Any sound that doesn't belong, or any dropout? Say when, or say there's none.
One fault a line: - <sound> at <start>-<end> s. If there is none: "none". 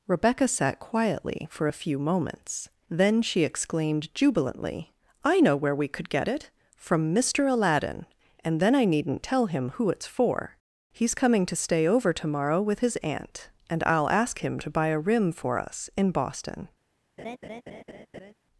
- laugh at 17.2-18.3 s